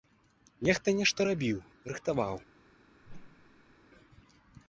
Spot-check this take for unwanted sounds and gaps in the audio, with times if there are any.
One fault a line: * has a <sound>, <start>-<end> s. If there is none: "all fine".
* has a whoosh, 3.0-3.8 s